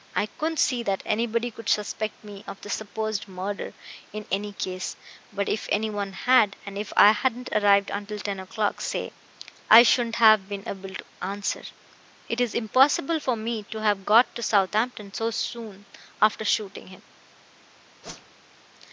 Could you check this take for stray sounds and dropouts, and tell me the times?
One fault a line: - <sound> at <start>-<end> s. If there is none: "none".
- whoosh at 18.0-18.4 s